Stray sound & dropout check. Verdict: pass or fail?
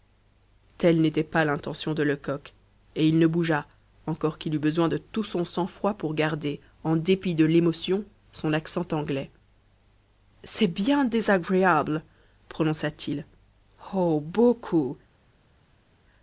pass